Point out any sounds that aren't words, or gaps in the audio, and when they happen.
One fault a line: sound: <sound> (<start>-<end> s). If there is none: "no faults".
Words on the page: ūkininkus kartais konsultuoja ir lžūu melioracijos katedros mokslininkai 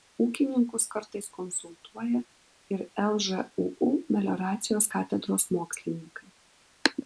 no faults